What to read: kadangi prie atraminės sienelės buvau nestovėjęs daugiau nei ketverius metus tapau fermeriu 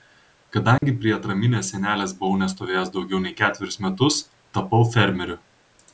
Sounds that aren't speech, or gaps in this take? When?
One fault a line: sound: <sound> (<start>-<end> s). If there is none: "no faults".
sound: dropout (0.8-0.8 s)